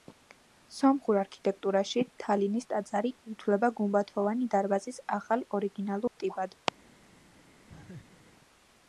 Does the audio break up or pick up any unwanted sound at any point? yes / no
yes